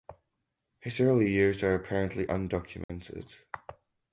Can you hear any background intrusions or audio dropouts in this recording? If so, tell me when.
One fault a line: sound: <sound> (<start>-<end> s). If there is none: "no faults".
sound: dropout (2.8-2.9 s)